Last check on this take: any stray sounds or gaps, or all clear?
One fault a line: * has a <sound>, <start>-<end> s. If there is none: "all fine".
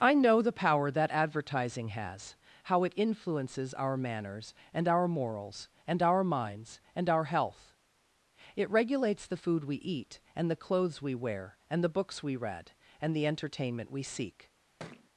* has a thud, 14.8-15.1 s